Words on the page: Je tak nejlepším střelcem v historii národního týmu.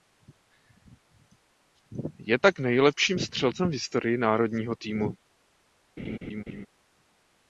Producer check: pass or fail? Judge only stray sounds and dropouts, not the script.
fail